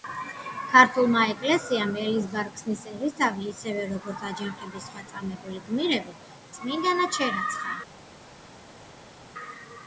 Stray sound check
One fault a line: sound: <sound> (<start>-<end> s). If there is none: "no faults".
no faults